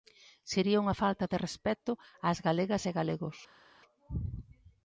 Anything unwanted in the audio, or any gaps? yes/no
no